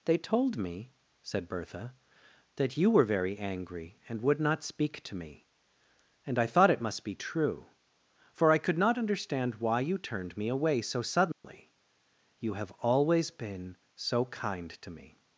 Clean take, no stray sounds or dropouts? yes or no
no